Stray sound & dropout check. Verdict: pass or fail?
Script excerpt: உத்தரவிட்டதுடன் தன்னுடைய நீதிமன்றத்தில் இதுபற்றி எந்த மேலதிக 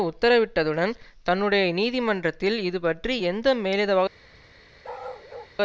fail